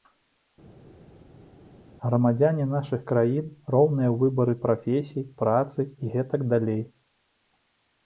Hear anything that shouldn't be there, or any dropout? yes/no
no